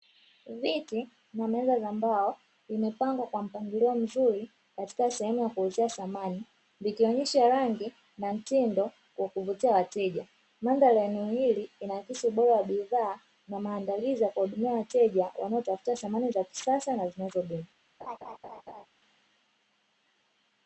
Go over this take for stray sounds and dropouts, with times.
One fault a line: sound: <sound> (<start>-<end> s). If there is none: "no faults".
sound: laugh (18.0-18.9 s)